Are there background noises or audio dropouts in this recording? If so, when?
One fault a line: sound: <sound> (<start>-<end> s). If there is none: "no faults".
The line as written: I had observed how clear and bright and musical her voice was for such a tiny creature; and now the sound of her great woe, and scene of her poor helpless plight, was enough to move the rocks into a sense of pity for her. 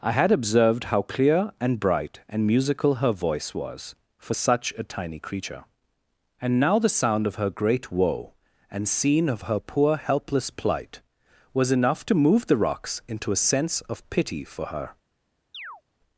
sound: chirp (15.5-15.8 s)